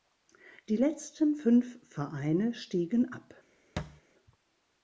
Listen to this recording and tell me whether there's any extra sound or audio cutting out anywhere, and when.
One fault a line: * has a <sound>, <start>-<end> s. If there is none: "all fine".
* has a thud, 3.8-4.0 s